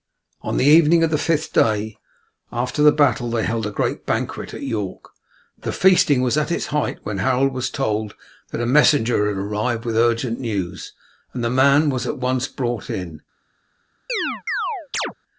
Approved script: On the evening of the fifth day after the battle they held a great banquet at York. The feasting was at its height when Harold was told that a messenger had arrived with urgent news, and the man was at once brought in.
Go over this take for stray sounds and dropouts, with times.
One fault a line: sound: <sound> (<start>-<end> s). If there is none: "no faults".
sound: chirp (14.1-15.1 s)